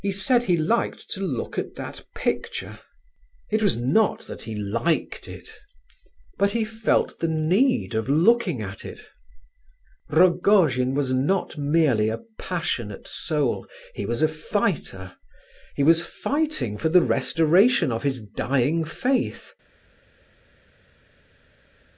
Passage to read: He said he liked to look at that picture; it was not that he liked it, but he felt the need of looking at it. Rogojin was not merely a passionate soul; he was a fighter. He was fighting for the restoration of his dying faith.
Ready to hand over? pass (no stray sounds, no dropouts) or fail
pass